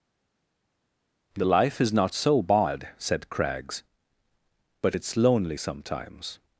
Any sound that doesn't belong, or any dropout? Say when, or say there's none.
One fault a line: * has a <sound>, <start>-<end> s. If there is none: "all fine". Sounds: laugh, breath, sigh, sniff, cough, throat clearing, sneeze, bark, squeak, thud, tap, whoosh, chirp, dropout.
all fine